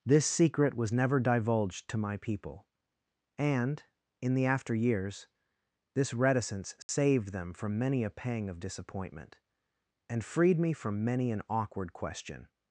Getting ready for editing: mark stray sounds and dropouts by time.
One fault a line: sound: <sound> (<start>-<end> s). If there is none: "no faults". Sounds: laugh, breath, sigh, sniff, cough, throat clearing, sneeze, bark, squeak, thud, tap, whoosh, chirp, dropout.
sound: dropout (6.8-6.9 s)